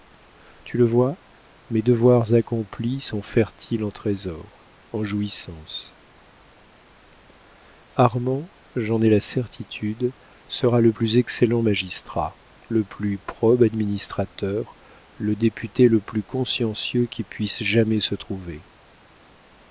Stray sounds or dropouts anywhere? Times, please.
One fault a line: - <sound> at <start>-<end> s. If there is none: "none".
none